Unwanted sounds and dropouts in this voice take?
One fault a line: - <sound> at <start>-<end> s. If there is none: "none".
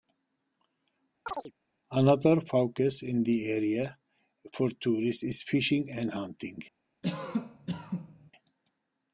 - chirp at 1.3-1.5 s
- cough at 7.0-8.3 s